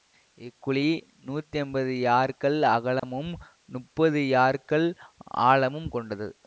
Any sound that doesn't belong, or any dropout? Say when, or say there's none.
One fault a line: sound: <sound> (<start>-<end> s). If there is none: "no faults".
sound: dropout (3.0-3.0 s)